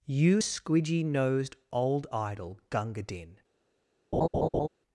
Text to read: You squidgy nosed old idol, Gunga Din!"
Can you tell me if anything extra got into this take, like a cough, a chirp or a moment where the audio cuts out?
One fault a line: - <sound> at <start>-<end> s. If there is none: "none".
- laugh at 4.1-4.7 s